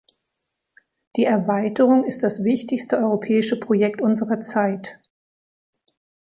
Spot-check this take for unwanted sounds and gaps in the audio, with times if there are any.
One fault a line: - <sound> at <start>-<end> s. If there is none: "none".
none